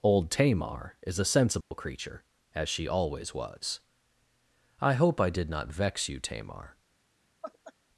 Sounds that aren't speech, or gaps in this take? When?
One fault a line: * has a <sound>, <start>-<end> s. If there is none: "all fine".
* has a dropout, 1.6-1.7 s
* has a laugh, 7.4-7.7 s